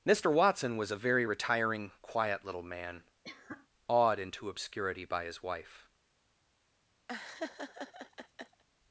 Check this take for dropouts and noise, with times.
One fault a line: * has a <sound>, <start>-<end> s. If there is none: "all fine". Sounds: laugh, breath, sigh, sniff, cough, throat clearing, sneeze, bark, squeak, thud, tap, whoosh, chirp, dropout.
* has a cough, 3.2-3.7 s
* has a laugh, 7.1-8.6 s